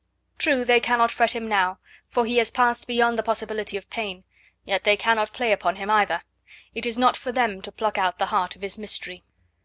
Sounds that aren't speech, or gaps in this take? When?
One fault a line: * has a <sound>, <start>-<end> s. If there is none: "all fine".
all fine